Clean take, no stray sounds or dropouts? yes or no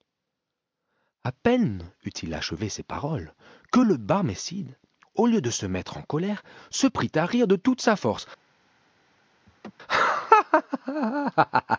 no